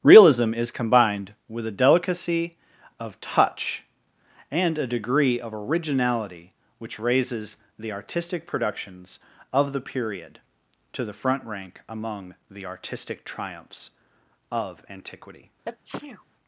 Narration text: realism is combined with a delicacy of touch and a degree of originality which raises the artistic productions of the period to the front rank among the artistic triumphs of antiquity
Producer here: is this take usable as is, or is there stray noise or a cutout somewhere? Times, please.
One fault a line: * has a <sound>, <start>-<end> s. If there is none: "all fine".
* has a sneeze, 15.6-16.2 s